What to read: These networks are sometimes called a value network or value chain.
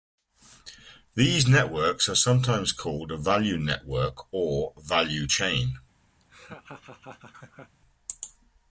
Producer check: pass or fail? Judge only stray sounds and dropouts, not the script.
fail